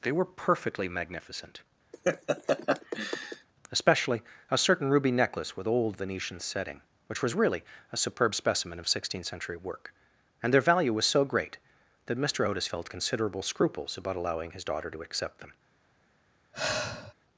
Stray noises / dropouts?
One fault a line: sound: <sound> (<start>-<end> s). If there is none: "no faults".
sound: laugh (1.9-3.5 s)
sound: sigh (16.5-17.1 s)